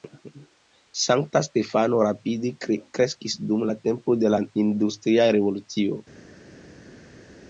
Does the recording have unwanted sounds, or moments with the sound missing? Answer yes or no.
no